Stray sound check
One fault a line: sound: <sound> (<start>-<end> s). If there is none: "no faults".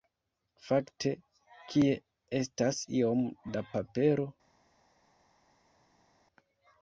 no faults